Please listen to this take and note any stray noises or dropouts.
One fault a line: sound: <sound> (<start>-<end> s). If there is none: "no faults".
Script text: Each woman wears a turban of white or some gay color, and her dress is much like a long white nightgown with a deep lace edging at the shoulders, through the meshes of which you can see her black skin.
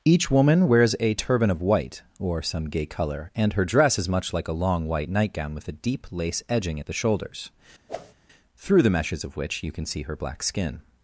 sound: whoosh (7.9-8.1 s)